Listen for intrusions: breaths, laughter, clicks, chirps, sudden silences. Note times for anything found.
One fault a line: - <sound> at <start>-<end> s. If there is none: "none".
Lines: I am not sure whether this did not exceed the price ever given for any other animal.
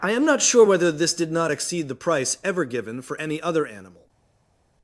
none